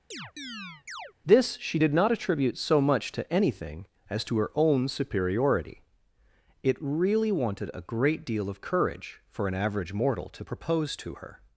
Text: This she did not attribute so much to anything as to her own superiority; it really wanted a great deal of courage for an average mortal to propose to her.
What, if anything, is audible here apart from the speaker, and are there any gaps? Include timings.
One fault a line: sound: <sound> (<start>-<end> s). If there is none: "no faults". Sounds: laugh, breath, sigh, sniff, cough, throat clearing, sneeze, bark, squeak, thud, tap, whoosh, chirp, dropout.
sound: chirp (0.1-1.1 s)